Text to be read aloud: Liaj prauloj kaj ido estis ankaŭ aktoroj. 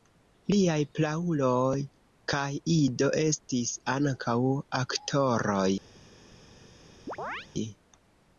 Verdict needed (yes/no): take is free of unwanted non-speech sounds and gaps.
no